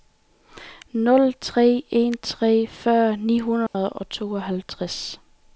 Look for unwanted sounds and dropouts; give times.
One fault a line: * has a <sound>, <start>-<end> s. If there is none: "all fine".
* has a dropout, 3.7-3.7 s